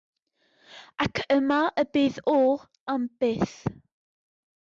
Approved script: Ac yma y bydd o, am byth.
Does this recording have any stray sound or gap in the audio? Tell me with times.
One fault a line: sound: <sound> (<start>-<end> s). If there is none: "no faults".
no faults